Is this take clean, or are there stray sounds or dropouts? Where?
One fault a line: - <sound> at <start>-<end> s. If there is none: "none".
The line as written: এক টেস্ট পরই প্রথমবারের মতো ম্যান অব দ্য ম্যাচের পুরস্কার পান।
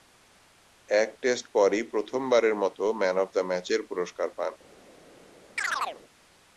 - chirp at 5.6-6.0 s